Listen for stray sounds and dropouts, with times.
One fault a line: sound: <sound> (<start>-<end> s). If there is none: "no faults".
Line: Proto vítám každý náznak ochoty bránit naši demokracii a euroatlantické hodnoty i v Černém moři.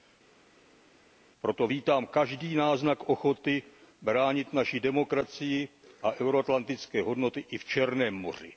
no faults